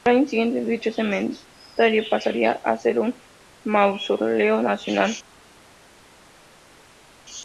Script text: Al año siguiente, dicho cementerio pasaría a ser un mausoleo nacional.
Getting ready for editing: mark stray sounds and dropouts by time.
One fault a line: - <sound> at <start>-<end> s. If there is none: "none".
none